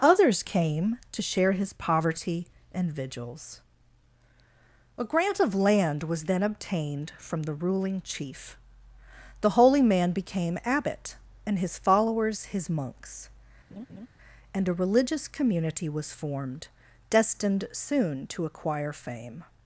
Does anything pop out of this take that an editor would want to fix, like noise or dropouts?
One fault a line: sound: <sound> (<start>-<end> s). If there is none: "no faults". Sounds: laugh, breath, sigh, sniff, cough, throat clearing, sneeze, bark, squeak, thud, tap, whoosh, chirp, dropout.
sound: laugh (13.7-14.1 s)